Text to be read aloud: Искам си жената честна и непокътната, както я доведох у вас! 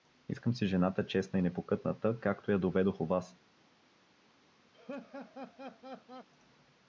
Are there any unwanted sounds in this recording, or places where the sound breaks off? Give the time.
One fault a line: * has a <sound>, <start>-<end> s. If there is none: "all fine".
* has a laugh, 4.7-6.3 s